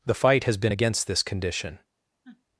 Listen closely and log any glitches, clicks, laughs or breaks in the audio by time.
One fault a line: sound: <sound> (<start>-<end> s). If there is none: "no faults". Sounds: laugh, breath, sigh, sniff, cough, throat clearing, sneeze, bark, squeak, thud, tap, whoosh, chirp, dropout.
sound: sniff (2.2-2.4 s)